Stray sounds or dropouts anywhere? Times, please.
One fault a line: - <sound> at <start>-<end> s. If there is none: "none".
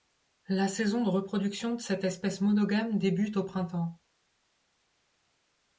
none